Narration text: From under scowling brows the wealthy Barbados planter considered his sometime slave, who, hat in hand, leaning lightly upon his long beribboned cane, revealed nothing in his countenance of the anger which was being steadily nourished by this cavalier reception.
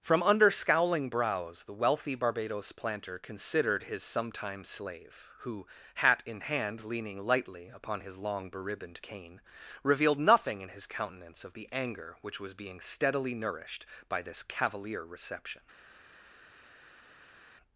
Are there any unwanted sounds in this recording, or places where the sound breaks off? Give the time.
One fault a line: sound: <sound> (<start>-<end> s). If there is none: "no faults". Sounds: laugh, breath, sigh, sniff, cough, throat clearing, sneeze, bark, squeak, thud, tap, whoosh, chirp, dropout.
no faults